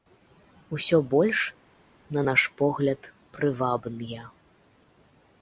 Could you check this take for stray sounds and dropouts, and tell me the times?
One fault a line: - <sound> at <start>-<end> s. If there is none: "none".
none